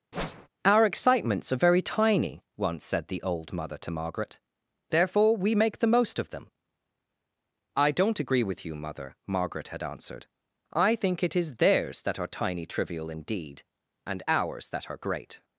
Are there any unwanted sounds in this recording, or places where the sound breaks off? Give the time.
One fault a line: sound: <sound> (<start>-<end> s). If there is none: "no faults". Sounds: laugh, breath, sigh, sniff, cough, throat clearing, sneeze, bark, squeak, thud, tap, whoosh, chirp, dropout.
sound: whoosh (0.1-0.5 s)